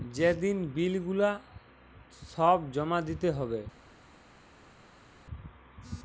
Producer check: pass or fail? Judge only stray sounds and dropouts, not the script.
pass